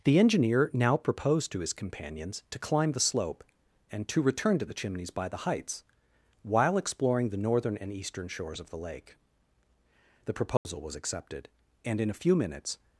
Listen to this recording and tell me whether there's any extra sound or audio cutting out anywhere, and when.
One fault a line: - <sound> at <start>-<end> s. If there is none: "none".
- dropout at 10.6-10.7 s